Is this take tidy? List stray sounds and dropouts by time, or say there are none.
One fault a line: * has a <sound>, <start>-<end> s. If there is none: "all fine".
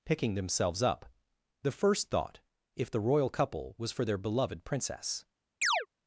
* has a chirp, 5.6-5.9 s